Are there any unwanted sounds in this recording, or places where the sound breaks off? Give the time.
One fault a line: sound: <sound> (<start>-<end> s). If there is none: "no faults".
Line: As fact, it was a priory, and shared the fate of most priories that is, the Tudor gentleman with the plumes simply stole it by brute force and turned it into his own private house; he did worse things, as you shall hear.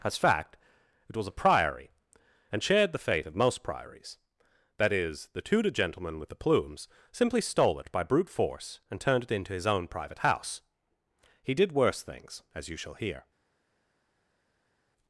no faults